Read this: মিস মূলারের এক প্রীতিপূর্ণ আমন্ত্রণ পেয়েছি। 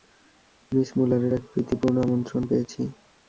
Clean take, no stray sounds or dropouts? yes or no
yes